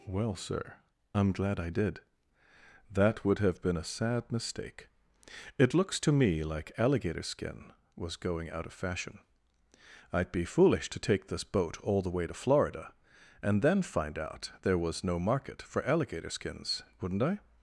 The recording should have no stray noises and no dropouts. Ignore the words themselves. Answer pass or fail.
pass